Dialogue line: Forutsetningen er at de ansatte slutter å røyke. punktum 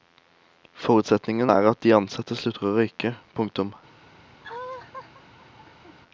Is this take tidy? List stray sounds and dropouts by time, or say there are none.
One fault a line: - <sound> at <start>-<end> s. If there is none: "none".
- laugh at 4.4-6.0 s